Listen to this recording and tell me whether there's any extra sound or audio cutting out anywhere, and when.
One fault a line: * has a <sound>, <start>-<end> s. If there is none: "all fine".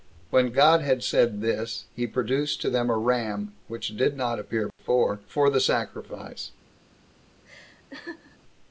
* has a dropout, 4.7-4.8 s
* has a laugh, 7.4-8.4 s